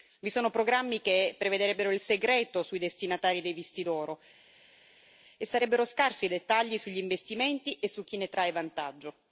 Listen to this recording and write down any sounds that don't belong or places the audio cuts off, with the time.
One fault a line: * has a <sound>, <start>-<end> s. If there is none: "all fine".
all fine